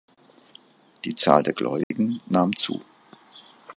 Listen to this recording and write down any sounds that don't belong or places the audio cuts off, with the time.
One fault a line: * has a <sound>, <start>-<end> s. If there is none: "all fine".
* has a dropout, 1.8-1.9 s